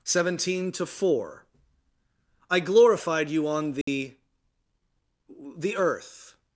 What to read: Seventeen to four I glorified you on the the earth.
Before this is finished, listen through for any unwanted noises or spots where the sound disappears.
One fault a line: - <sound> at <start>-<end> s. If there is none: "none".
- dropout at 3.8-3.9 s